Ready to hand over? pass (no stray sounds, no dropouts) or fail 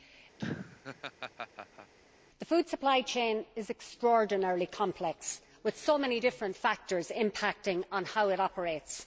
fail